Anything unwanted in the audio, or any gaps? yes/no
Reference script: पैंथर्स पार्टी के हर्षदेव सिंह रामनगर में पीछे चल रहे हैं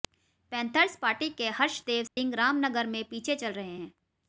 yes